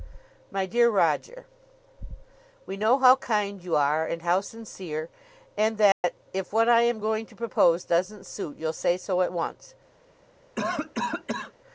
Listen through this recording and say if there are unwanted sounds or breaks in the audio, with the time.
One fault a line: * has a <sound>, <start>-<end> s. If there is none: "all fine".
* has a dropout, 5.9-6.0 s
* has a cough, 10.6-11.5 s